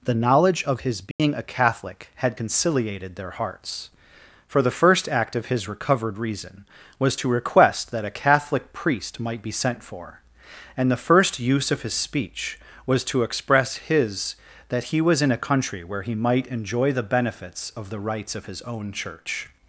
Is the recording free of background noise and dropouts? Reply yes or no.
no